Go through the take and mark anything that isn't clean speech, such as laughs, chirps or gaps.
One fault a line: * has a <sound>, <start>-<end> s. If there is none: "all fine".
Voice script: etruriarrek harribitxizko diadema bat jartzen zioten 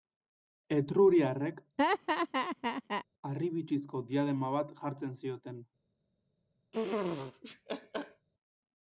* has a laugh, 1.8-3.1 s
* has a laugh, 6.7-8.3 s